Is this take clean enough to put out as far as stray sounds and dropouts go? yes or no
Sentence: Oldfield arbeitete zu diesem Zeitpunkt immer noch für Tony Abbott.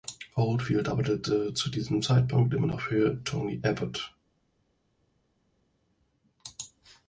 yes